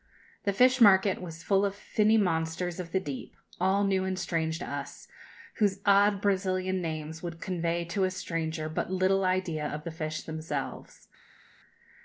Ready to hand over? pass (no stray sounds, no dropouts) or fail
pass